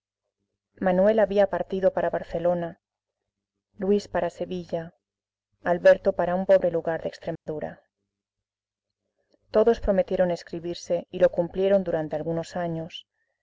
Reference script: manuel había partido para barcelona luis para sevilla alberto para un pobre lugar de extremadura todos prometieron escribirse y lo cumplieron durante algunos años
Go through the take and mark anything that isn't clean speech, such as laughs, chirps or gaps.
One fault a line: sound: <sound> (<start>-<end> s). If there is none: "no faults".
sound: dropout (7.4-7.5 s)